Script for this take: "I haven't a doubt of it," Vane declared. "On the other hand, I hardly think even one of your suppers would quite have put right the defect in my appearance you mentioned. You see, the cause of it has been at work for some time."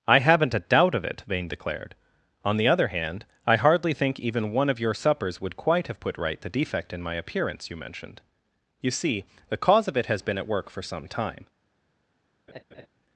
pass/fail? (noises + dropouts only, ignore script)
fail